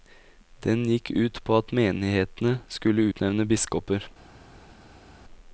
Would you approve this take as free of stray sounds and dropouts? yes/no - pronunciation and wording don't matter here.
yes